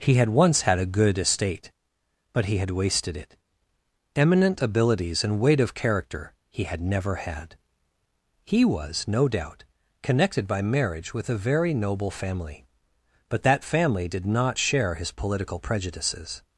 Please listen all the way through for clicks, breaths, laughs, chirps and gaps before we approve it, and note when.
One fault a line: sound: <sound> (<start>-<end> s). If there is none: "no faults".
no faults